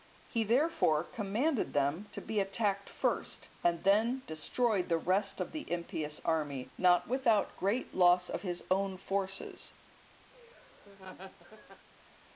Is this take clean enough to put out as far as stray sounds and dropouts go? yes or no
no